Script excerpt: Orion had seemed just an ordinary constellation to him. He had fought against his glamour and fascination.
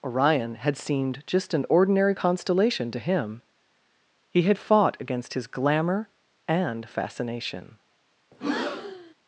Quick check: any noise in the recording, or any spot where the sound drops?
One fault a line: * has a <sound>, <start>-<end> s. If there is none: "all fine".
* has a breath, 8.3-9.1 s